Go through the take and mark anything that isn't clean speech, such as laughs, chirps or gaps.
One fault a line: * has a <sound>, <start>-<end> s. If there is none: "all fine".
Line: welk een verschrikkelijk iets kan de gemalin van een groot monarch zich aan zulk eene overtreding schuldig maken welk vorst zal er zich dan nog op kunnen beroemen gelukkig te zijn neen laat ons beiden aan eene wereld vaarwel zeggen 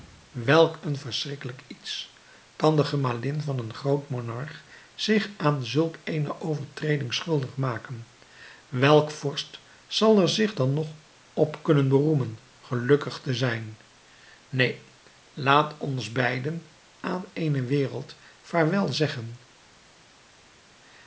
all fine